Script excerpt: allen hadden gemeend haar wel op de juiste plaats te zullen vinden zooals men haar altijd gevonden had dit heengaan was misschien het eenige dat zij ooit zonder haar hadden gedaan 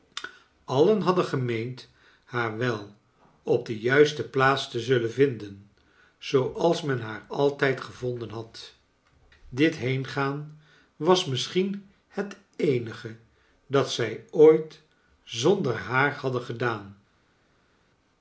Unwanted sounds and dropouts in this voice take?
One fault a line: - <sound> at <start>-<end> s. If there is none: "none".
none